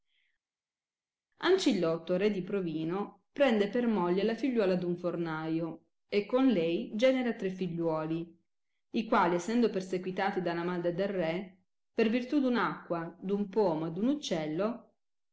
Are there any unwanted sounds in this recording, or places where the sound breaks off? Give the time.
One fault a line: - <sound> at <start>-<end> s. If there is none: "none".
none